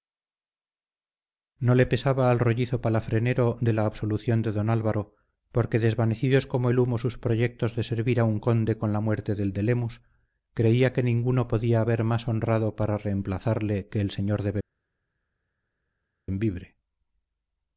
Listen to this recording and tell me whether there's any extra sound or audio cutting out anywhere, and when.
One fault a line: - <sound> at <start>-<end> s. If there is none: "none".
none